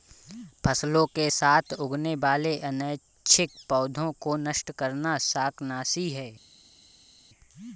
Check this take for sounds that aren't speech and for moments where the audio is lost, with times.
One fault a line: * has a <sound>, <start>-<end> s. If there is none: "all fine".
all fine